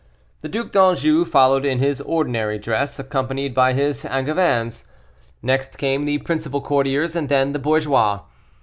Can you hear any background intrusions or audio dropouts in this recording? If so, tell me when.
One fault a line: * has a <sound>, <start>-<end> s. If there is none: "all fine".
all fine